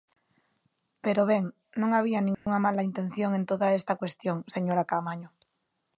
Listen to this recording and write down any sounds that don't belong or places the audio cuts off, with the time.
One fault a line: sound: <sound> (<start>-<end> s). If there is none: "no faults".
sound: dropout (2.3-2.5 s)